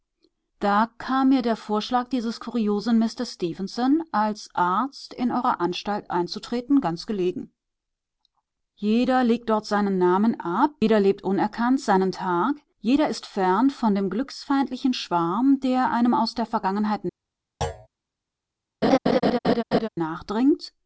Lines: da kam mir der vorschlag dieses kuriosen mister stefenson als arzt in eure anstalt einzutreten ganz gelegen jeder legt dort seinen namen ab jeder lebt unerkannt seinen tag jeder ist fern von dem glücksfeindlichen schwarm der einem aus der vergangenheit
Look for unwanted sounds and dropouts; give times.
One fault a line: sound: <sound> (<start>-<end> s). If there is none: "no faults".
sound: thud (17.6-17.9 s)
sound: laugh (18.8-19.9 s)